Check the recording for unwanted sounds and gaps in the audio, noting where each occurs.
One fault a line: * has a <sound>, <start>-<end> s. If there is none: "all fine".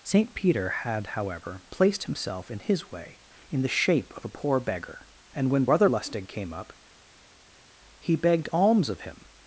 all fine